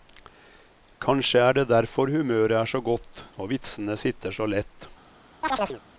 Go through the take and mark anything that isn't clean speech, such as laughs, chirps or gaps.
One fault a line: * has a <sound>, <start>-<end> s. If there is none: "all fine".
* has a chirp, 5.4-5.8 s